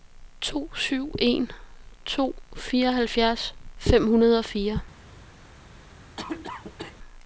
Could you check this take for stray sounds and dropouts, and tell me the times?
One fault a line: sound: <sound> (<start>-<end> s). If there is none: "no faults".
sound: cough (6.2-7.0 s)